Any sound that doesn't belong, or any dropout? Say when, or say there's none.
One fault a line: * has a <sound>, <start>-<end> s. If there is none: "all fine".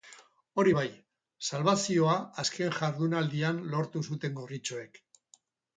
all fine